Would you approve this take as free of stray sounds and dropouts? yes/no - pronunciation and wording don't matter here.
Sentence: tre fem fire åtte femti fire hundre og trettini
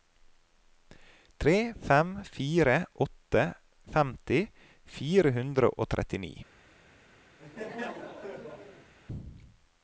no